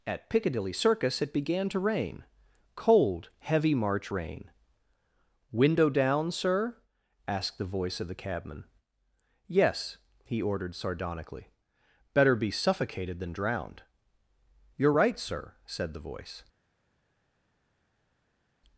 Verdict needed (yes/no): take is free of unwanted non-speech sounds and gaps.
yes